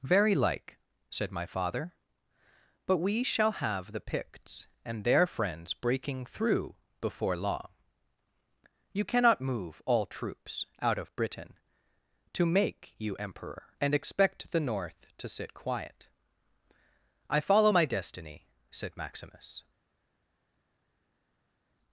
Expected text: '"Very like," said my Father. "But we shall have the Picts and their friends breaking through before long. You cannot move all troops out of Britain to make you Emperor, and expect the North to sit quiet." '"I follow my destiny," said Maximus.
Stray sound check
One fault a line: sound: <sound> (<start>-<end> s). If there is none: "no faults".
no faults